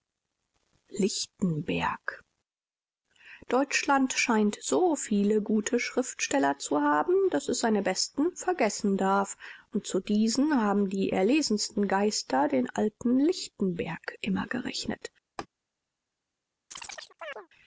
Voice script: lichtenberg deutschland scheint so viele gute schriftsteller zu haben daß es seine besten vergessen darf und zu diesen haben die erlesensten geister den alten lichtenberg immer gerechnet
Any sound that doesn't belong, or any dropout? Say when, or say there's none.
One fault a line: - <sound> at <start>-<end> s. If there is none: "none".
- laugh at 15.4-15.5 s
- chirp at 16.7-17.5 s